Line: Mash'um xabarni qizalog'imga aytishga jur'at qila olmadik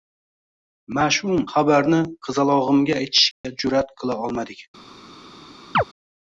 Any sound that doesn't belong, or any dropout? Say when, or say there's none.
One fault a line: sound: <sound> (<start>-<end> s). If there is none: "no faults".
sound: dropout (3.3-3.4 s)
sound: chirp (5.7-5.8 s)